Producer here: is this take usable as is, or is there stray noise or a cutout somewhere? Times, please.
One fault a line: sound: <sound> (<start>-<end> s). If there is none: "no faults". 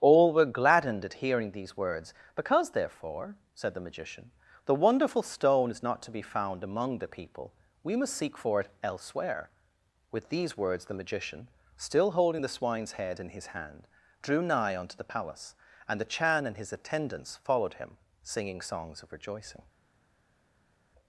no faults